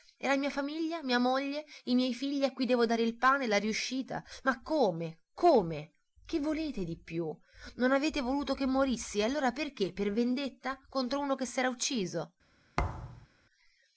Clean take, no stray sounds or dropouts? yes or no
no